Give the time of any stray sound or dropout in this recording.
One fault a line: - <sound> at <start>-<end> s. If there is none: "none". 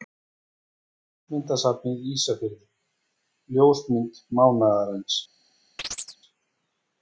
- chirp at 5.8-6.2 s